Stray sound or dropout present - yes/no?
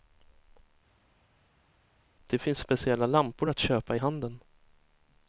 no